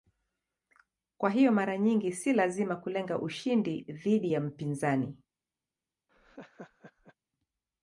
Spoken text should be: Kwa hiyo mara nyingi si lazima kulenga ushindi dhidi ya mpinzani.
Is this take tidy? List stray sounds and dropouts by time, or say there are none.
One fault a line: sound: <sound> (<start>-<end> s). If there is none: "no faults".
sound: laugh (6.1-7.2 s)